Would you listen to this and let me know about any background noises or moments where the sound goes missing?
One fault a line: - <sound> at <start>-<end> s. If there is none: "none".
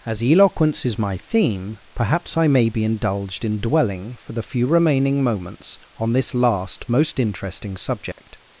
- dropout at 8.1-8.2 s